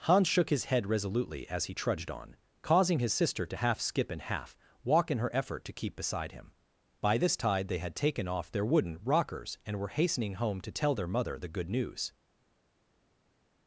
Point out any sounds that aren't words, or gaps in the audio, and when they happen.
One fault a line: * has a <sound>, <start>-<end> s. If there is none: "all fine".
all fine